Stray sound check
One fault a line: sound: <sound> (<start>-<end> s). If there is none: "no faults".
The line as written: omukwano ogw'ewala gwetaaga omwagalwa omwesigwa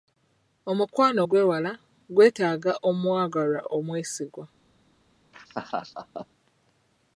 sound: laugh (5.3-6.3 s)